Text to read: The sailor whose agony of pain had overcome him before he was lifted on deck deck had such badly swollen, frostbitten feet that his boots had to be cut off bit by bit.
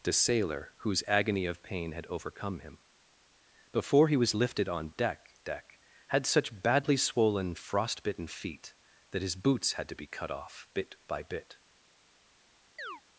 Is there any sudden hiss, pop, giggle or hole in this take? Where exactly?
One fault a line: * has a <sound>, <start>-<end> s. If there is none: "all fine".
* has a chirp, 12.8-13.0 s